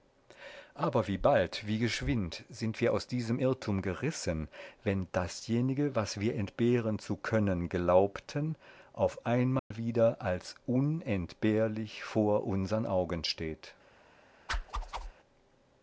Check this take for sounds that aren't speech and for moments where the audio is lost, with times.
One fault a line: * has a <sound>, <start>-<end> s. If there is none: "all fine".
* has a dropout, 9.6-9.7 s
* has a whoosh, 14.5-15.1 s